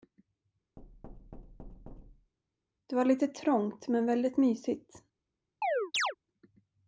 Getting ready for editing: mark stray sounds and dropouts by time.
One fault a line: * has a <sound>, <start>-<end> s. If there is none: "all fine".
* has a thud, 0.8-2.3 s
* has a chirp, 5.6-6.2 s